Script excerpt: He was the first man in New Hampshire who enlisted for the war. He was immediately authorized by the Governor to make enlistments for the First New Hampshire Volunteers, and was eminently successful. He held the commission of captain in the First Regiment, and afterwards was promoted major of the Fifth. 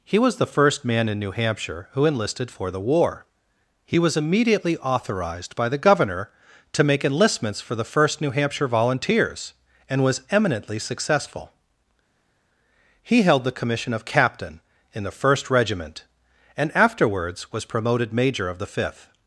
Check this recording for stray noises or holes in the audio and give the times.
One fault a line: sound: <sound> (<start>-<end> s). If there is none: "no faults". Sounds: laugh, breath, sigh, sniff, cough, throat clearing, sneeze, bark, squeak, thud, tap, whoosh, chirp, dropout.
no faults